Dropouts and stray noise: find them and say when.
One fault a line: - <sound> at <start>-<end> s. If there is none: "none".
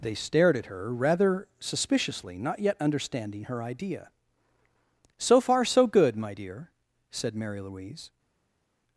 none